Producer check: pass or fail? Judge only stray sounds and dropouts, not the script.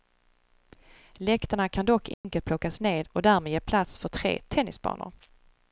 fail